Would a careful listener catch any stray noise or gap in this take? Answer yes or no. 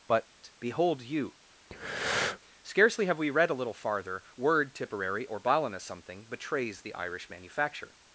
yes